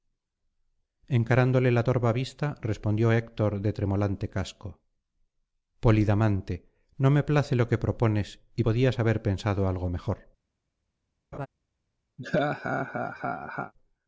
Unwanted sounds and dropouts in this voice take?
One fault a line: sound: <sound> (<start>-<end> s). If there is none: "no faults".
sound: laugh (11.3-11.5 s)
sound: laugh (12.2-13.7 s)